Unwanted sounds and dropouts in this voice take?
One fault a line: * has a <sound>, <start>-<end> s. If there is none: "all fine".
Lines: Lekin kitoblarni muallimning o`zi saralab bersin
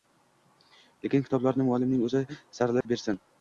* has a dropout, 2.8-2.9 s